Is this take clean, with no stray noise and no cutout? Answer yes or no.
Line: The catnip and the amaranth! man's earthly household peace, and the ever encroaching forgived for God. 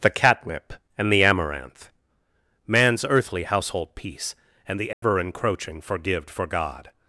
no